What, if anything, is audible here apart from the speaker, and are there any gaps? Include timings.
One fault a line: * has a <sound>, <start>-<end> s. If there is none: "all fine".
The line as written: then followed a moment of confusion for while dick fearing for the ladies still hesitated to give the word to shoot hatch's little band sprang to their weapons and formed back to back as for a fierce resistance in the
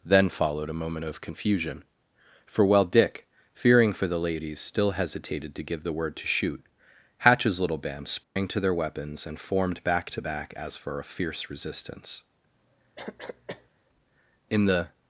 * has a dropout, 8.2-8.4 s
* has a cough, 13.0-13.7 s